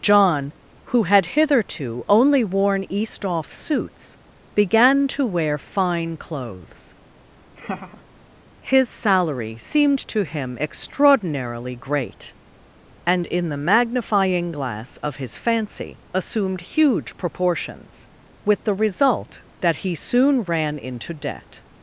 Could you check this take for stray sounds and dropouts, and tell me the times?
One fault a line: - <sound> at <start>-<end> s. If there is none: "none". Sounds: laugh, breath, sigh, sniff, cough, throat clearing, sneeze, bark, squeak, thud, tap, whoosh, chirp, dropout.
- laugh at 7.6-8.0 s